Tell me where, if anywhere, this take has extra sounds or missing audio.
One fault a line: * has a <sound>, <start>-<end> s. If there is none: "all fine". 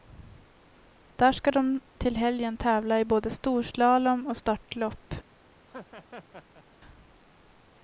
* has a laugh, 5.6-6.6 s